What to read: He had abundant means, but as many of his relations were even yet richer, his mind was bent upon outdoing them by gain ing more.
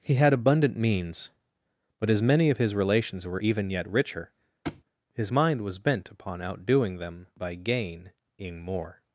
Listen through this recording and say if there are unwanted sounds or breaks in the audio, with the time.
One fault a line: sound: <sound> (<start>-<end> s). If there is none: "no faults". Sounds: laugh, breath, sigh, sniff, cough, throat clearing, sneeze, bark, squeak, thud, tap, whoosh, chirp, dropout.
sound: thud (4.6-4.8 s)